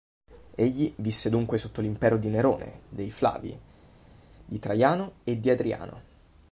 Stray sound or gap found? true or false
false